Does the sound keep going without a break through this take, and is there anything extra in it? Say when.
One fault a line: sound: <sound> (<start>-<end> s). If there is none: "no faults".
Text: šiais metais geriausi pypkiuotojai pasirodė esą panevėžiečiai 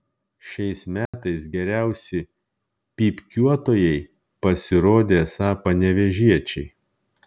sound: dropout (1.1-1.1 s)